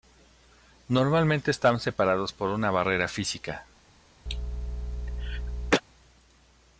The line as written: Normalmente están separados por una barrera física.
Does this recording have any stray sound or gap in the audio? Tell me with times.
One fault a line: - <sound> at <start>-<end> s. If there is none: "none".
- cough at 4.3-5.8 s